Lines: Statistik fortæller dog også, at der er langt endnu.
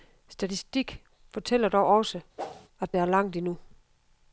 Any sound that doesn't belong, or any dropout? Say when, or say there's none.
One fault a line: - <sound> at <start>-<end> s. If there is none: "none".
- whoosh at 2.4-2.7 s